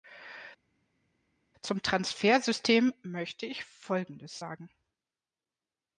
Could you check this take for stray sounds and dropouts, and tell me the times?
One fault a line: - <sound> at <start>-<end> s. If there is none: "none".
none